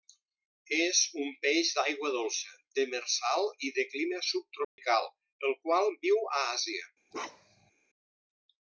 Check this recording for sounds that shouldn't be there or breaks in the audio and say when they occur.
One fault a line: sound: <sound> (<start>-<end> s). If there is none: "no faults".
sound: dropout (4.6-4.8 s)
sound: bark (7.1-7.7 s)